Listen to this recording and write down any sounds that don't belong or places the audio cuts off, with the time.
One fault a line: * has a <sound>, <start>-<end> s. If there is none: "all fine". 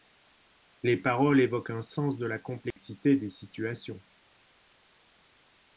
* has a dropout, 2.7-2.8 s